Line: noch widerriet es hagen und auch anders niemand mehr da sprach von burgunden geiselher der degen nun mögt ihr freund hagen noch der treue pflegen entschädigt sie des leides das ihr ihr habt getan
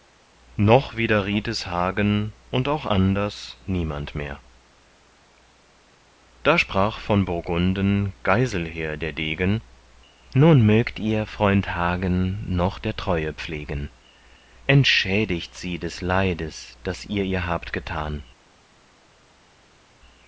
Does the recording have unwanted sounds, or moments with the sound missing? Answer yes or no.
no